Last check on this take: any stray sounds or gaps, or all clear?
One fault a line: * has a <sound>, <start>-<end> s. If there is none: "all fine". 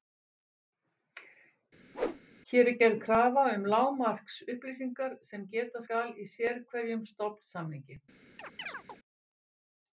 * has a whoosh, 1.9-2.2 s
* has a chirp, 8.4-9.0 s